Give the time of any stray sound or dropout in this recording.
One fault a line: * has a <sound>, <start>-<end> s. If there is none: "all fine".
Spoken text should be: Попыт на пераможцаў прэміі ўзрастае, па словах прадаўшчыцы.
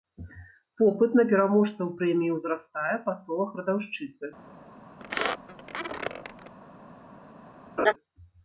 * has a squeak, 5.0-6.5 s
* has a laugh, 7.8-7.9 s